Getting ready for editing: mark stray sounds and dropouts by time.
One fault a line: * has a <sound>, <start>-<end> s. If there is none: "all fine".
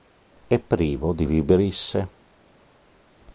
all fine